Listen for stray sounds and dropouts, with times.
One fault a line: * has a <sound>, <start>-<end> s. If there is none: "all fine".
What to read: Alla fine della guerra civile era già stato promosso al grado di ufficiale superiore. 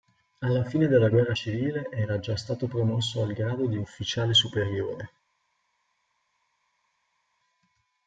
all fine